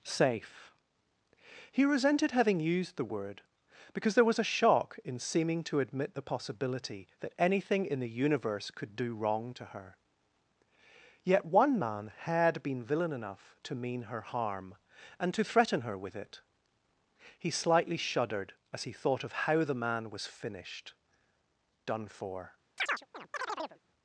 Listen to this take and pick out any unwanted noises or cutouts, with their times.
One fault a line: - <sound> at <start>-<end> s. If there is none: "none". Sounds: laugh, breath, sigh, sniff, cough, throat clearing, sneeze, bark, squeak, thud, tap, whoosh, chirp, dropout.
- chirp at 22.8-23.8 s